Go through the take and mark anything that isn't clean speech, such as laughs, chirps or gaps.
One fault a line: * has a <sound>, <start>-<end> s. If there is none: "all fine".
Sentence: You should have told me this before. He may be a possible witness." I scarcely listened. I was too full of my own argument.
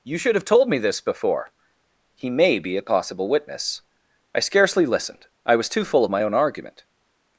all fine